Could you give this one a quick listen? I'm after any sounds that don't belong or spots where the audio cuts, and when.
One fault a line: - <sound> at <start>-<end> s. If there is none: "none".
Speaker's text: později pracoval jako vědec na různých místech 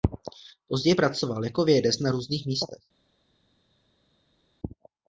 none